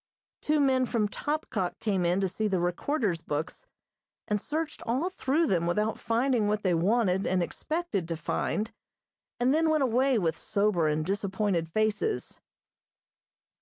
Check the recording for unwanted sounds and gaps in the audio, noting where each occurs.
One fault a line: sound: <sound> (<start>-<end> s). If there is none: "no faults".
no faults